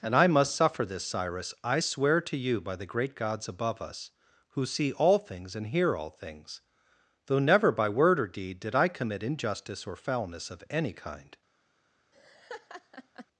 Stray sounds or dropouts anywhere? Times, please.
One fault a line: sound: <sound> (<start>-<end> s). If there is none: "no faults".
sound: laugh (12.1-13.3 s)